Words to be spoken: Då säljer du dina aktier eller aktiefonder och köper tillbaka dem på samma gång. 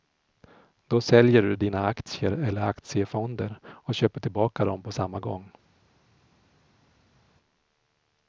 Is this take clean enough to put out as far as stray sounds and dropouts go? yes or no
yes